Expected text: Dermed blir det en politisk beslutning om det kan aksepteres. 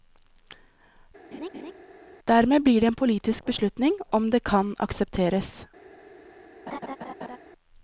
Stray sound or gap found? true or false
true